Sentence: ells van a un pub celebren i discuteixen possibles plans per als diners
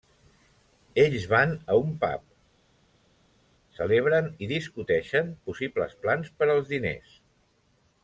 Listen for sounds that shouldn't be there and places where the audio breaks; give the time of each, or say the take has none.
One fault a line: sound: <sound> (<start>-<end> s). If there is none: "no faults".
no faults